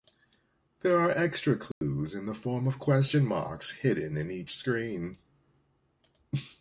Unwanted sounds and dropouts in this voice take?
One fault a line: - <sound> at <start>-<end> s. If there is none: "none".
- dropout at 1.7-1.8 s